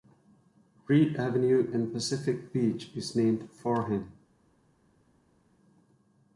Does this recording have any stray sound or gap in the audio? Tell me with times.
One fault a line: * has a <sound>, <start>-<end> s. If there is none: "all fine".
all fine